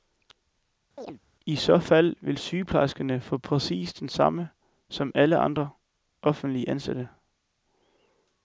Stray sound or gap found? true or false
true